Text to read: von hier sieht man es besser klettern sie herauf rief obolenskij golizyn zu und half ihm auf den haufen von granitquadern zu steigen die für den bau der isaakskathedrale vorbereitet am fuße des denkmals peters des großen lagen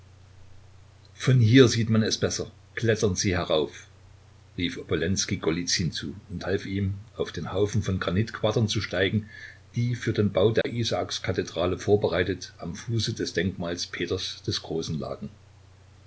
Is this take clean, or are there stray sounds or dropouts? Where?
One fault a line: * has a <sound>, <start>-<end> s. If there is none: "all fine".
* has a dropout, 10.6-10.6 s